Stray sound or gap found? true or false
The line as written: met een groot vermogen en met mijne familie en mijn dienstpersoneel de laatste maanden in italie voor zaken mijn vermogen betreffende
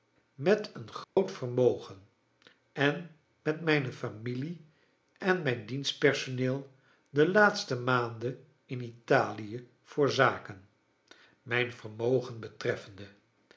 true